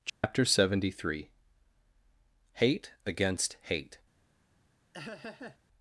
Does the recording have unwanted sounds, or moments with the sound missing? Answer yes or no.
yes